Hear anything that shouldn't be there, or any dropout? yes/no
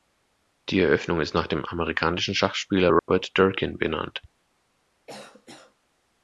yes